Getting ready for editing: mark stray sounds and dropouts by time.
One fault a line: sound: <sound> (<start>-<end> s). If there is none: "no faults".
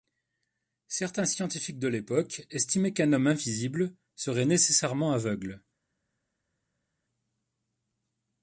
no faults